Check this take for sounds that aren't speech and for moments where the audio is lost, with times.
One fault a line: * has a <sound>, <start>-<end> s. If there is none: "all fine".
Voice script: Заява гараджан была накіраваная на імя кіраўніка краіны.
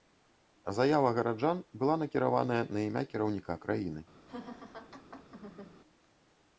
* has a laugh, 4.3-5.8 s